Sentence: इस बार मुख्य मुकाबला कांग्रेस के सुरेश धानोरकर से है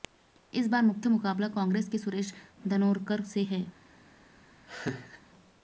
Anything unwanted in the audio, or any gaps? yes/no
yes